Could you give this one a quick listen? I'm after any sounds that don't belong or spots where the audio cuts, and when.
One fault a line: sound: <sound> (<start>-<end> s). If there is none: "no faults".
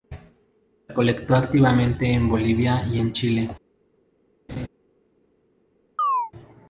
sound: laugh (4.5-4.7 s)
sound: chirp (6.0-6.3 s)